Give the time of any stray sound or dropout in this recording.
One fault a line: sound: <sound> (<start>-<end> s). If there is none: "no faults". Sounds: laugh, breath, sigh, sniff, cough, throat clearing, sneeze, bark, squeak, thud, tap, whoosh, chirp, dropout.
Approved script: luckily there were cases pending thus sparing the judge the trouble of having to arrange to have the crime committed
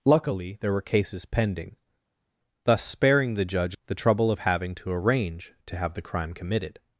no faults